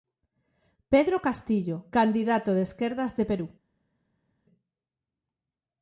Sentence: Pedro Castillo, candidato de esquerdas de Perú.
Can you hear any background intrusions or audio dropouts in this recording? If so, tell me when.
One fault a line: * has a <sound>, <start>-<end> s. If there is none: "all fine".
all fine